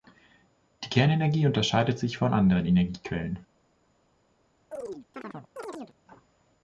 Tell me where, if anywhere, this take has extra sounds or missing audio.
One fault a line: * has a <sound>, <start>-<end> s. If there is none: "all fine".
* has a chirp, 4.7-6.0 s